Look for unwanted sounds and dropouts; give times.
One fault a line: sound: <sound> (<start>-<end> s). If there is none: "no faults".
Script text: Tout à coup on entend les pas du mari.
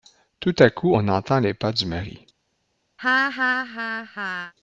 sound: laugh (3.0-4.5 s)